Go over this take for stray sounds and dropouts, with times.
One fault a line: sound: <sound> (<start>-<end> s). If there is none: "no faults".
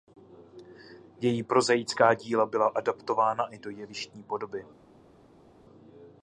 no faults